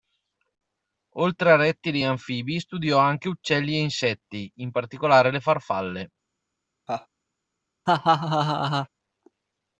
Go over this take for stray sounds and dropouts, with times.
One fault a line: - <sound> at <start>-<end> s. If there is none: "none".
- laugh at 6.9-7.1 s
- laugh at 7.9-8.9 s